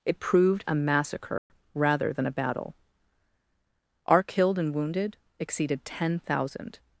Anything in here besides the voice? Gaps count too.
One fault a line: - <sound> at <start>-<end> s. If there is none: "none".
- dropout at 1.4-1.5 s